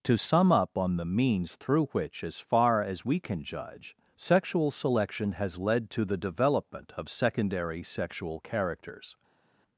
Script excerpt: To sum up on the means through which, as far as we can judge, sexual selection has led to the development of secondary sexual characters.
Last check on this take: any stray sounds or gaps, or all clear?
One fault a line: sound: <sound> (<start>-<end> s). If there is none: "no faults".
no faults